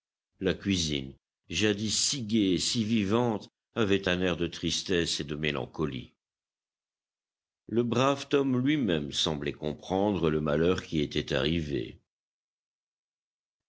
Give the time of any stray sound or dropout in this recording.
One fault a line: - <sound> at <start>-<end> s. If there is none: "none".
none